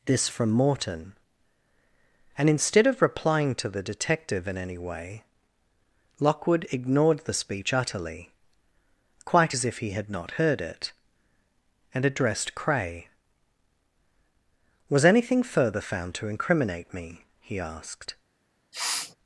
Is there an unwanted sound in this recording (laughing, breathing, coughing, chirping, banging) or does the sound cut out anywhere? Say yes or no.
yes